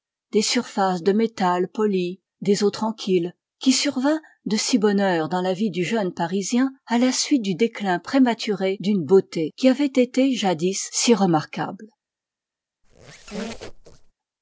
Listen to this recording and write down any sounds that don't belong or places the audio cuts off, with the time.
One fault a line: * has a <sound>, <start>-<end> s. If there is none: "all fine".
* has a squeak, 12.8-14.1 s